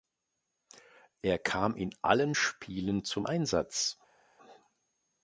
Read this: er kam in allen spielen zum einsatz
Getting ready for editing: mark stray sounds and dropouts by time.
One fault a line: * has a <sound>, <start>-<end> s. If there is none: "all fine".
all fine